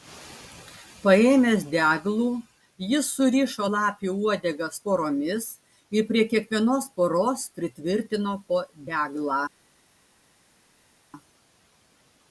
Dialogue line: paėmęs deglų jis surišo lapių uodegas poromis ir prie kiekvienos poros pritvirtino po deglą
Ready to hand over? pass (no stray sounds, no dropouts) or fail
pass